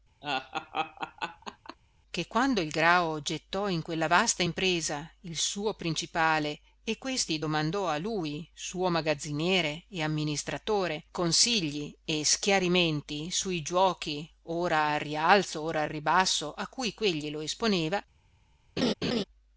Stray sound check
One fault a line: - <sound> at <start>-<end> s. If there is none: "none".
- laugh at 0.2-1.8 s
- laugh at 18.8-19.2 s